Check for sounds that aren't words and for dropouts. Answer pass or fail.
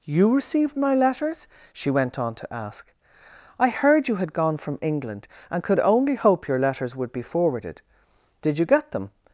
pass